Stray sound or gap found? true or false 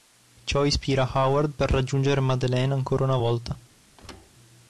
true